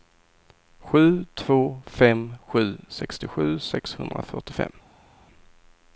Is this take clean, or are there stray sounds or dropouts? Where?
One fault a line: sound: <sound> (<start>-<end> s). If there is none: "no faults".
no faults